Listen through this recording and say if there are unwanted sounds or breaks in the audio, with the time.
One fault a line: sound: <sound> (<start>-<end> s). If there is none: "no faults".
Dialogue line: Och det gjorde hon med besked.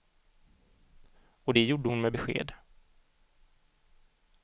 no faults